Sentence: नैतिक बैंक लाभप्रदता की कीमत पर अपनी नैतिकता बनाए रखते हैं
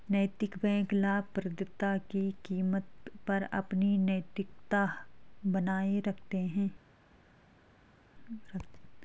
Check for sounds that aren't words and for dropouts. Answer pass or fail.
pass